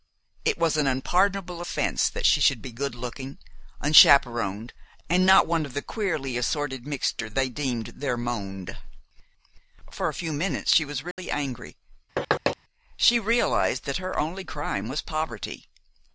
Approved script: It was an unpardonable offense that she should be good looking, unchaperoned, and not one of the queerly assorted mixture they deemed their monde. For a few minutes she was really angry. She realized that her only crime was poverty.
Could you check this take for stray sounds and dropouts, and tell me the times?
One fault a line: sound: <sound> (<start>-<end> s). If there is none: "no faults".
sound: dropout (11.1-11.2 s)
sound: thud (12.2-12.6 s)